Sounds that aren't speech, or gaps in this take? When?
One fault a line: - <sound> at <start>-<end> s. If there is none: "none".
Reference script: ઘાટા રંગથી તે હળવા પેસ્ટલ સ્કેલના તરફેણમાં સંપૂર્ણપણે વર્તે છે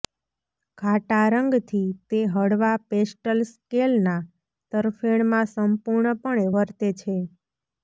none